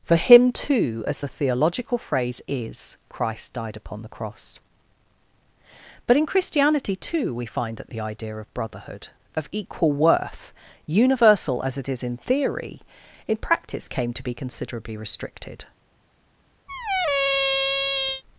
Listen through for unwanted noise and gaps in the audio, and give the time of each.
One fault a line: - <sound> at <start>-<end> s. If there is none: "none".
- squeak at 16.7-18.2 s